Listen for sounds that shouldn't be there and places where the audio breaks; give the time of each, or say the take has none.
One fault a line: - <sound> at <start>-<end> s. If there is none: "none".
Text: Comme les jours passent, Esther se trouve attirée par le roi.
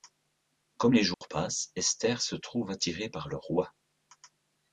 - dropout at 1.1-1.2 s